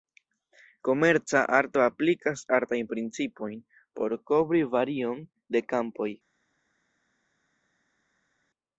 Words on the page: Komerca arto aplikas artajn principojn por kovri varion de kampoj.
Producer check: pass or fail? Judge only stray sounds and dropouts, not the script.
pass